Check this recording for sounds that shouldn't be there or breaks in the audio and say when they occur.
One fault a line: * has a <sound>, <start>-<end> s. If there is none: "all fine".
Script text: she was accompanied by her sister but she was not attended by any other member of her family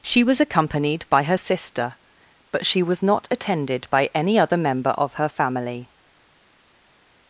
all fine